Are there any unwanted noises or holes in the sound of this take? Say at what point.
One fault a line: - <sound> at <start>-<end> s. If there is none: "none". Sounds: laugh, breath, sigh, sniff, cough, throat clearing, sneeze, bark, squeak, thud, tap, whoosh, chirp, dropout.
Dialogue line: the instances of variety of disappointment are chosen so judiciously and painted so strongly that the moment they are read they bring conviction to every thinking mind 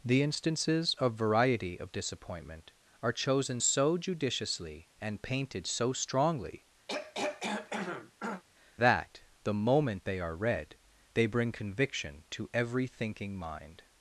- throat clearing at 6.9-8.4 s